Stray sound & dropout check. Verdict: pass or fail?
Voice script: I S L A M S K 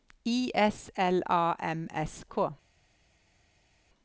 pass